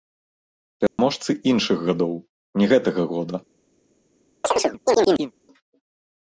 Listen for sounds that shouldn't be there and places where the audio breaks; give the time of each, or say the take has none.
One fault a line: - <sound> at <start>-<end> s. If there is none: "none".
- dropout at 0.9-1.0 s
- chirp at 4.4-5.3 s